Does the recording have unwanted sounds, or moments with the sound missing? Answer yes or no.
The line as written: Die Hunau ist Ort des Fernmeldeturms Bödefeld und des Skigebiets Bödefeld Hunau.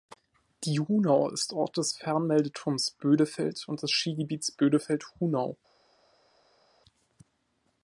no